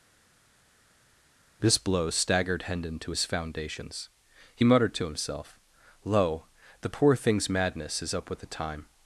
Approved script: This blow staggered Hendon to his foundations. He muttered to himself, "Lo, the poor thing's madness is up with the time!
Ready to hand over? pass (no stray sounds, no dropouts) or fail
pass